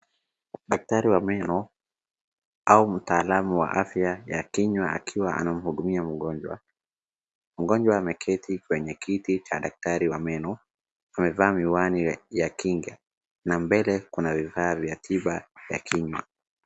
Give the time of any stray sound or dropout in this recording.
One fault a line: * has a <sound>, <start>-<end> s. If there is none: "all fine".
all fine